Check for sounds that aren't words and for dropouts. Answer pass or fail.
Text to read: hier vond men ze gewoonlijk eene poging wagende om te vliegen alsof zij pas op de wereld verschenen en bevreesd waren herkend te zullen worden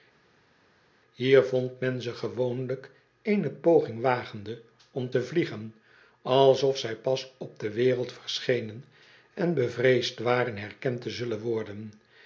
pass